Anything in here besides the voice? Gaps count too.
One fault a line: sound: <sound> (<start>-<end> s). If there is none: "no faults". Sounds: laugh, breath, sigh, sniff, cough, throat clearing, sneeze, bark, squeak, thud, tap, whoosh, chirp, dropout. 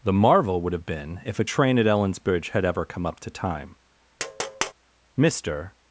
sound: tap (4.2-4.7 s)